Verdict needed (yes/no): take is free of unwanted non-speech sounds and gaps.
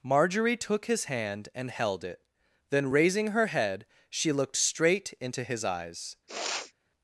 no